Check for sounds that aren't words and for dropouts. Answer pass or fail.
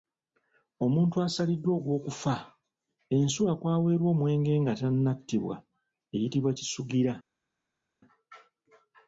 pass